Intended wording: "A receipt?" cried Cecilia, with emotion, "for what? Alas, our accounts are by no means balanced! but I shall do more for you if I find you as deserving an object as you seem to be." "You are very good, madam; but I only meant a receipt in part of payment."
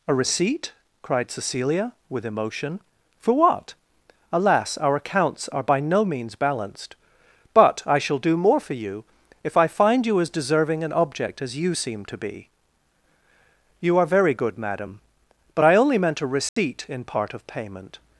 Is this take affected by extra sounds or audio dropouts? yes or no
yes